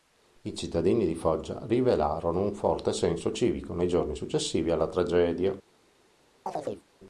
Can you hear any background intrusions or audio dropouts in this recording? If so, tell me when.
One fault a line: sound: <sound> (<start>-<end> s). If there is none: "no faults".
sound: chirp (6.5-6.9 s)